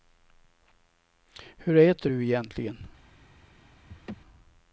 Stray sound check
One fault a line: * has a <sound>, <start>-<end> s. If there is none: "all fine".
* has a laugh, 3.9-4.2 s